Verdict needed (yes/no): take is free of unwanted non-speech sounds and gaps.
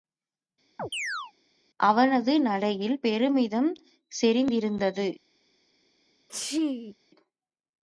no